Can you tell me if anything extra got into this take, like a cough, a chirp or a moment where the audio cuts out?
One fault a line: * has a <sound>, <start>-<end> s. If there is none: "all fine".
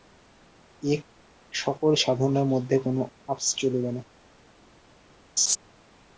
* has a laugh, 5.4-5.6 s